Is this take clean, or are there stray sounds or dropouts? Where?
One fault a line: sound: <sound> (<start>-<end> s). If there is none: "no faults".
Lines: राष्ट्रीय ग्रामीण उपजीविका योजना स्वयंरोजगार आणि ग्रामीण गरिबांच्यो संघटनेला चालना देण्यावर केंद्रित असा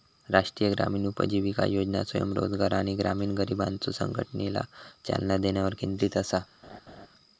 sound: laugh (6.6-7.1 s)